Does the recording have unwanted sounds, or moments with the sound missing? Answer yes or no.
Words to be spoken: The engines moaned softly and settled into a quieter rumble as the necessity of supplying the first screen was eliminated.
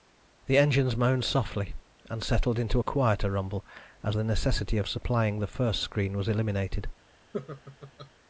yes